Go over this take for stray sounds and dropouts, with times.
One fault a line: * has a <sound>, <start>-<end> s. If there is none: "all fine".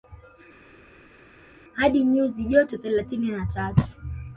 all fine